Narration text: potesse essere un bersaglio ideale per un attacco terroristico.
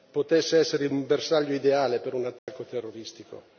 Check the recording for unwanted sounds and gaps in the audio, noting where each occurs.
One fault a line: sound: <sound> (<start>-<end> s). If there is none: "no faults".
sound: dropout (2.4-2.5 s)